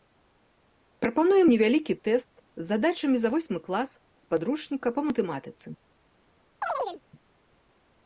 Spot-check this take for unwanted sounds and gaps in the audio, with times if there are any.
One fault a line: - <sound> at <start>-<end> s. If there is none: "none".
- chirp at 6.6-7.0 s